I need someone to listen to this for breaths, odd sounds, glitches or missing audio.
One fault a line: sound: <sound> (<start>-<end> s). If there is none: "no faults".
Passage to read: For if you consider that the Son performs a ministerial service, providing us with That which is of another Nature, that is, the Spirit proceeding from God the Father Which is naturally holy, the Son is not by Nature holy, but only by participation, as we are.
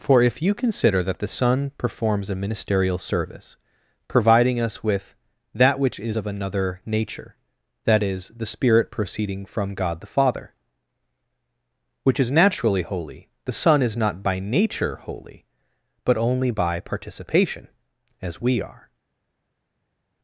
no faults